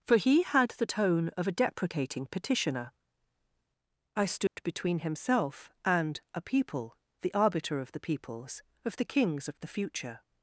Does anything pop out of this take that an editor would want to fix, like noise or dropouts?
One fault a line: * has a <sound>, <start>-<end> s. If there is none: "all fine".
* has a dropout, 4.5-4.6 s